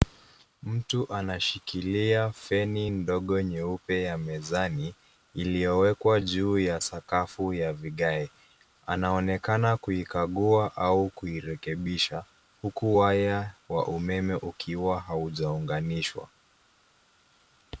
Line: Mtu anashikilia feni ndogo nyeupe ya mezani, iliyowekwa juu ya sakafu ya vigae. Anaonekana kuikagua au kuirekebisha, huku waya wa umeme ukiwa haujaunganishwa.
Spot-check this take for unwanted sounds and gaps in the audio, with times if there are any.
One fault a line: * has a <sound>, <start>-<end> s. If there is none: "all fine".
all fine